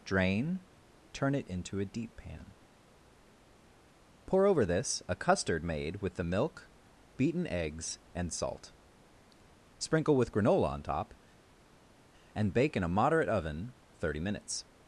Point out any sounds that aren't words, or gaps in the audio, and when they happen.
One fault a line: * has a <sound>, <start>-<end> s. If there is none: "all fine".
all fine